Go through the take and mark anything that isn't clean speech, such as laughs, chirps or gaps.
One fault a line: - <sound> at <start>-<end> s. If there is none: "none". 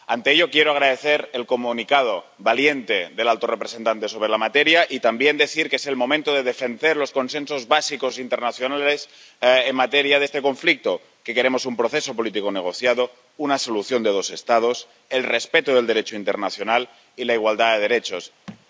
- thud at 18.5-18.7 s